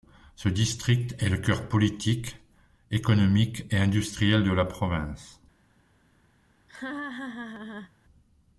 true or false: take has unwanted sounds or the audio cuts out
true